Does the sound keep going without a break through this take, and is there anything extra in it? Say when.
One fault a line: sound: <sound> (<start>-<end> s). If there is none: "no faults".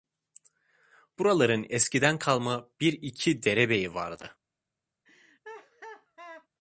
sound: laugh (5.0-6.5 s)